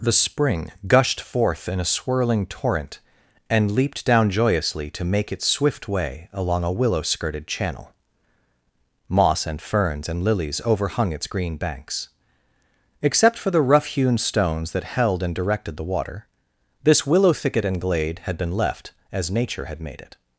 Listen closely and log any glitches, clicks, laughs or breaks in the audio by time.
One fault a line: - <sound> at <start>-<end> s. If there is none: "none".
none